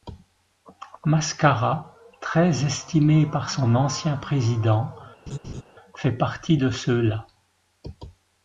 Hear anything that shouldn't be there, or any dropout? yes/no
yes